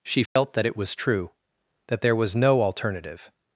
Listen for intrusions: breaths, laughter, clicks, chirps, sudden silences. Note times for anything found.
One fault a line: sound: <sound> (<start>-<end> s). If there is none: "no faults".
sound: dropout (0.3-0.4 s)